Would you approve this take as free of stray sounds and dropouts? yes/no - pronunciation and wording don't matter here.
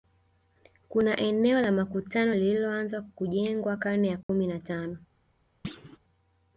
no